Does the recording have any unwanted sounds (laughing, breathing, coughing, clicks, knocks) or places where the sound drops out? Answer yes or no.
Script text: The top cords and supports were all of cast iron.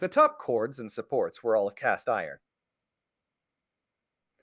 no